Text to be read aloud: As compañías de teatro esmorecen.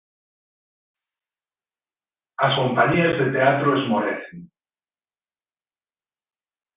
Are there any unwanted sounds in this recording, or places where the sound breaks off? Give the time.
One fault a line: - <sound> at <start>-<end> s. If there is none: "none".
none